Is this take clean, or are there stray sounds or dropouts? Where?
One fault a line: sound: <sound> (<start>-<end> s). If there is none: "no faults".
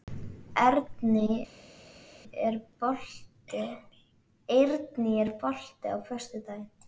no faults